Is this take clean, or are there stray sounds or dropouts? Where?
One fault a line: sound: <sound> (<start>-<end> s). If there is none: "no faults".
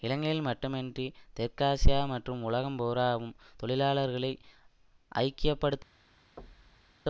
sound: thud (6.4-7.0 s)